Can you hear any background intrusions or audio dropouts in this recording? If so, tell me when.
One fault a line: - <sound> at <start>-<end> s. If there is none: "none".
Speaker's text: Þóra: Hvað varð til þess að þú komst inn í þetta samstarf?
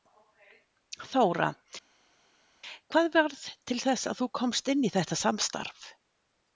none